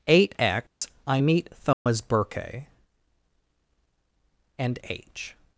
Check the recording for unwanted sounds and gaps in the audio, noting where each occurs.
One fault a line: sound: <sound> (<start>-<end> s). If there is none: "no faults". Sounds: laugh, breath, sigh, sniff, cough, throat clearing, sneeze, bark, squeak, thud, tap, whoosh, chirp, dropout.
sound: dropout (0.7-0.8 s)
sound: dropout (1.7-1.9 s)